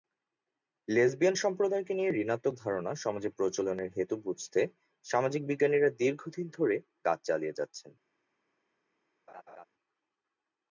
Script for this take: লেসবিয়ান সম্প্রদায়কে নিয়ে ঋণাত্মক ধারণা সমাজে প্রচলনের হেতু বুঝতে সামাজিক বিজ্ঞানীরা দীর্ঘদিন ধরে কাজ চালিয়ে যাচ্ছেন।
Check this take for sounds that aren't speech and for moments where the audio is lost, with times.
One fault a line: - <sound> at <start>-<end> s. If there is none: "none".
- laugh at 9.3-9.7 s